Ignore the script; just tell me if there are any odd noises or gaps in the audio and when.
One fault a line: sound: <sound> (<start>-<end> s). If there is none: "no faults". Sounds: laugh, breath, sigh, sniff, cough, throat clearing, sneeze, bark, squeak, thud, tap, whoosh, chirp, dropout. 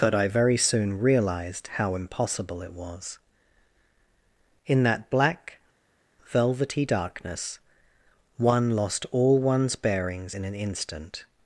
no faults